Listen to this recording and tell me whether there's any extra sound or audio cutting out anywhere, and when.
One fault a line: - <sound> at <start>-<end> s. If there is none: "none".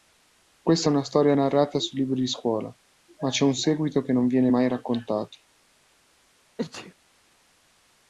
- sneeze at 6.6-6.9 s